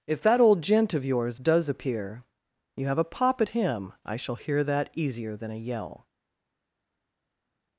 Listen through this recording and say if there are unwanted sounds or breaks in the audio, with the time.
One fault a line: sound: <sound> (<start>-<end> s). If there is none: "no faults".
no faults